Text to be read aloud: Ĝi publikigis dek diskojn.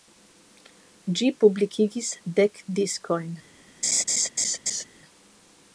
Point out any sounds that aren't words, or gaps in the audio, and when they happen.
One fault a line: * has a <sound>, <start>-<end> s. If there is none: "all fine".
* has a laugh, 3.8-4.8 s